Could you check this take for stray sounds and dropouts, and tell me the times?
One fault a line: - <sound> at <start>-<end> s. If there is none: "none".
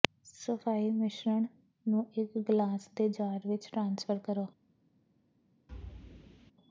- thud at 5.7-6.5 s